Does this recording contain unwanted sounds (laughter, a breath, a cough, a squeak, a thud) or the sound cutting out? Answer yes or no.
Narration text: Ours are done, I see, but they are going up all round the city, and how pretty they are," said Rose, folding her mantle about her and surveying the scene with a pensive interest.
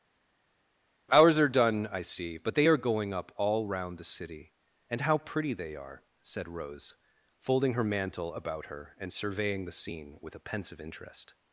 no